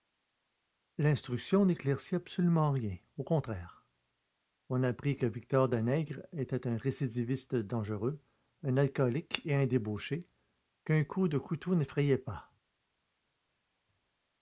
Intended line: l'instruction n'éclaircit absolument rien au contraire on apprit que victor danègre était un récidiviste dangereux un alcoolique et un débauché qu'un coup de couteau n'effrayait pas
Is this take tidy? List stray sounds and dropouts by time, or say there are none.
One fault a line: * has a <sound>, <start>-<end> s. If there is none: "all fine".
all fine